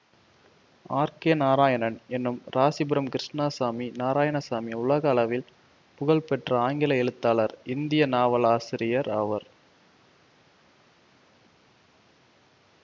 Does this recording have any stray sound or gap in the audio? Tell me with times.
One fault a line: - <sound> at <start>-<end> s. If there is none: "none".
none